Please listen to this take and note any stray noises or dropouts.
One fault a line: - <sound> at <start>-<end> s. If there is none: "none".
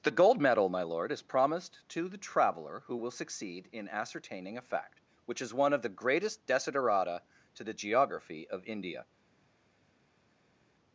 none